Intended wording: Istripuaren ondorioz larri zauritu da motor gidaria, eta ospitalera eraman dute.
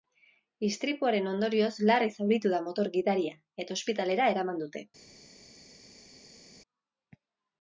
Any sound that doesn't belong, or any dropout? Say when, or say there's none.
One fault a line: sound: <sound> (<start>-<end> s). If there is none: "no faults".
no faults